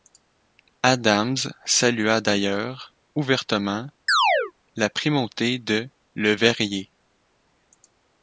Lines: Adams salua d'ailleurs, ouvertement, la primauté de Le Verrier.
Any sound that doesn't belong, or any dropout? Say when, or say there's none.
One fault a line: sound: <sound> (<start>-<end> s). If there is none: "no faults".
sound: chirp (4.1-4.5 s)